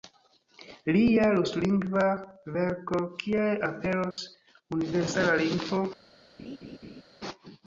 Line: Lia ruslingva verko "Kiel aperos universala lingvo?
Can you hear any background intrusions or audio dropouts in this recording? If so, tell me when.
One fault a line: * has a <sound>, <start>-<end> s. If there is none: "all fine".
* has a dropout, 4.1-4.2 s
* has a laugh, 6.4-7.0 s